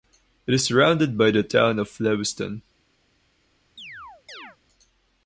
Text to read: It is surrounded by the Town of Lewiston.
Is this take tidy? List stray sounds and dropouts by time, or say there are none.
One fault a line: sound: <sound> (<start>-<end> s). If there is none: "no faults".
sound: chirp (3.8-4.6 s)